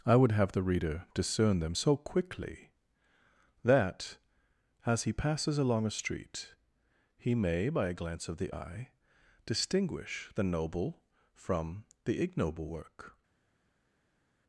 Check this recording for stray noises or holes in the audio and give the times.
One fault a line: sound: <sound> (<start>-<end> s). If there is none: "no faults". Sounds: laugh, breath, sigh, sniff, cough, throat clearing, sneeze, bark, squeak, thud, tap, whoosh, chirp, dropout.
no faults